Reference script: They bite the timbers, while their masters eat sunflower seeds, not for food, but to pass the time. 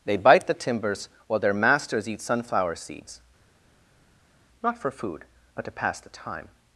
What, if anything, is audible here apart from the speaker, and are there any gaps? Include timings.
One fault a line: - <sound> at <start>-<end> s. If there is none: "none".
none